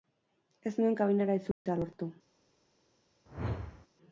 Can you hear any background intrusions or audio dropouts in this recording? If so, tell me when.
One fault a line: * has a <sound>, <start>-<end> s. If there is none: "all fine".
* has a dropout, 1.5-1.7 s
* has a whoosh, 3.3-3.9 s